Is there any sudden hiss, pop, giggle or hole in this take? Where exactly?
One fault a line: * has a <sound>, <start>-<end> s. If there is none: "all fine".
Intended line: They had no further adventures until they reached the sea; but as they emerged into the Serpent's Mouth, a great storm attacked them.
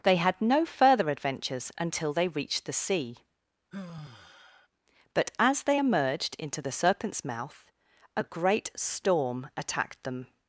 * has a sigh, 3.7-4.7 s